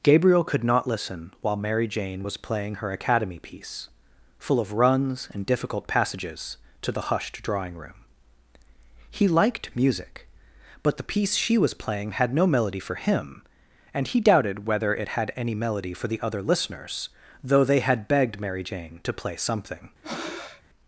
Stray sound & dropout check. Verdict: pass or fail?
fail